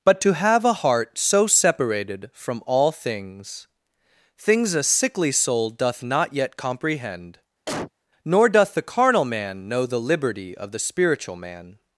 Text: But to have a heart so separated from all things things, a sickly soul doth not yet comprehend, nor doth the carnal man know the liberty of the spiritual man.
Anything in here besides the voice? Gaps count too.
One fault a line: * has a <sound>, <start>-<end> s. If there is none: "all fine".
* has a cough, 7.7-7.9 s